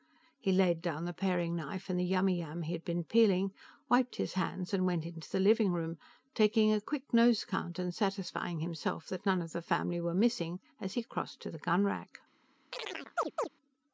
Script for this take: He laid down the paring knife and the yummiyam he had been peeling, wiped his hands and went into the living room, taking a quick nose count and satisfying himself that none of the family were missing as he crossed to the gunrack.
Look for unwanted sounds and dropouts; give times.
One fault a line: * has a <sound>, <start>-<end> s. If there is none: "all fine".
* has a chirp, 12.7-13.5 s